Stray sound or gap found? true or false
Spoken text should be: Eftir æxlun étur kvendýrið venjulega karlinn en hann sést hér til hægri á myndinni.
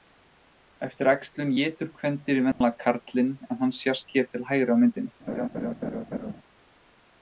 true